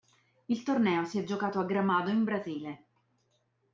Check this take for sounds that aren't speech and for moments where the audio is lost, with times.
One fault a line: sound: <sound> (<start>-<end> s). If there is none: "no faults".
no faults